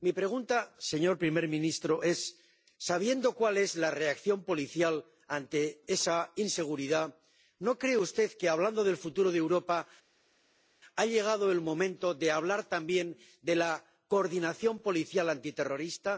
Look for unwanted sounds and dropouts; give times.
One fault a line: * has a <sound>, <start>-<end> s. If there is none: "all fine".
all fine